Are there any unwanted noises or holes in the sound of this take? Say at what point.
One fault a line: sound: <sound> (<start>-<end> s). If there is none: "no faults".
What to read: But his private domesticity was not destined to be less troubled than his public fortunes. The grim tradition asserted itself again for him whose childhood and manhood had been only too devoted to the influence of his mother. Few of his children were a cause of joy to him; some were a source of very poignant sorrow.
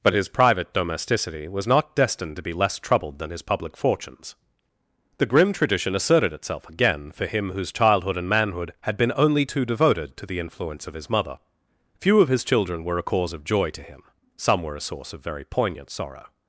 no faults